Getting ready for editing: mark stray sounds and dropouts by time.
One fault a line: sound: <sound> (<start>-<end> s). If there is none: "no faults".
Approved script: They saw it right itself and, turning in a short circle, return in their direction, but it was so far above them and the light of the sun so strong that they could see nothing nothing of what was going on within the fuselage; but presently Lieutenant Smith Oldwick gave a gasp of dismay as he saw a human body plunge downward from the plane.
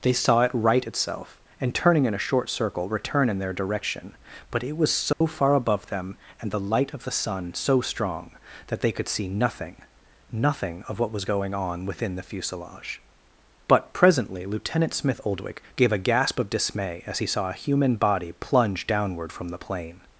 sound: dropout (5.1-5.2 s)